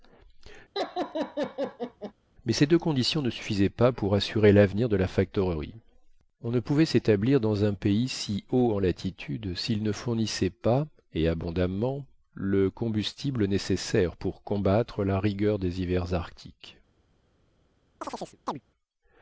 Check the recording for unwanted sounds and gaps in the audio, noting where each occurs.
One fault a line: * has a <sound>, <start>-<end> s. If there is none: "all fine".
* has a laugh, 0.7-2.1 s
* has a chirp, 18.0-18.6 s